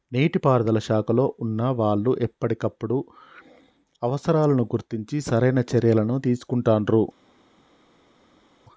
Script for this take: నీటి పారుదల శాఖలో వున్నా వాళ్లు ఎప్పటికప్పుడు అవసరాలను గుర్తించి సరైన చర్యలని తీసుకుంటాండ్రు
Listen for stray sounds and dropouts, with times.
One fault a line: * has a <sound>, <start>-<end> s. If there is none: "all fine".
all fine